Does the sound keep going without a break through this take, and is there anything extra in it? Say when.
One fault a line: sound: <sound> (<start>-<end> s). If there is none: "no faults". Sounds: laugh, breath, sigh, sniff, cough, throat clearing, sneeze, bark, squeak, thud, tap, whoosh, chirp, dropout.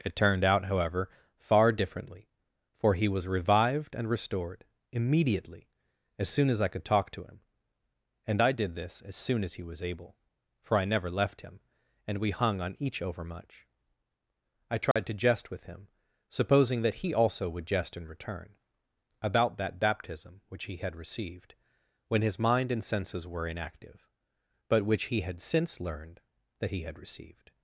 sound: dropout (14.9-15.0 s)